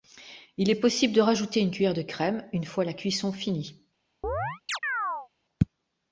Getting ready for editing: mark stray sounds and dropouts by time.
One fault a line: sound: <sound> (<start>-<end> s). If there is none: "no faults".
sound: chirp (4.2-5.3 s)